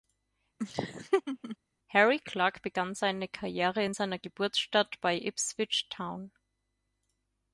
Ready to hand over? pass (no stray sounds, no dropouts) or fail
fail